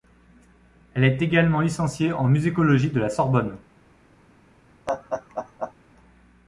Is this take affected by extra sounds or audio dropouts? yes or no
yes